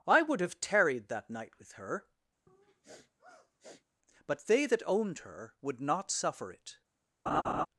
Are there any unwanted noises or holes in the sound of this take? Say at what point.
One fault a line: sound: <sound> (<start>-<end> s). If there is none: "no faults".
sound: sniff (2.5-3.8 s)
sound: laugh (7.3-7.7 s)